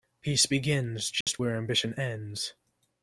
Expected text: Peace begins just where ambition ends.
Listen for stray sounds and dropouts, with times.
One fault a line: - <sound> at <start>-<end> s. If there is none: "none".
- dropout at 1.2-1.3 s